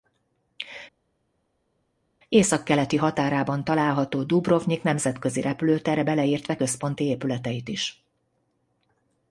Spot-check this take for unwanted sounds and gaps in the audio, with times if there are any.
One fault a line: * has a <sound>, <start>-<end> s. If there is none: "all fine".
all fine